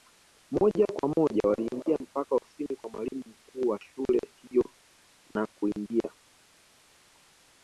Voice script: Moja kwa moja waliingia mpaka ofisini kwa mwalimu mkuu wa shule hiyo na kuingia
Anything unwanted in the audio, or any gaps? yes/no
no